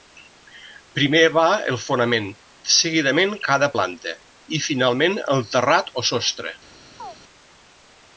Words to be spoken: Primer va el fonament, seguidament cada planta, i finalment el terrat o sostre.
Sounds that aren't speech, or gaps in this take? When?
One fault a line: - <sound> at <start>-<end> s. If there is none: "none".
- chirp at 7.0-7.2 s